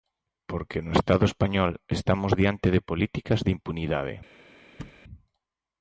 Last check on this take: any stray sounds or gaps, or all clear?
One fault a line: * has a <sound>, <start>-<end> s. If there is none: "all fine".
* has a thud, 4.8-5.0 s